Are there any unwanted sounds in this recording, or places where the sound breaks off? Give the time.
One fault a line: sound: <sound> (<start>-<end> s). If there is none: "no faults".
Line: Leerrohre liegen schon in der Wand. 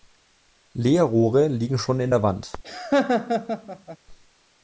sound: laugh (2.6-4.0 s)